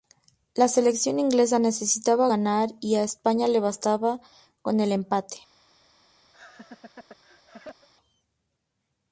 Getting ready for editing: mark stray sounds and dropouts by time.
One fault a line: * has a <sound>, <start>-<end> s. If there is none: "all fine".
* has a laugh, 6.3-7.9 s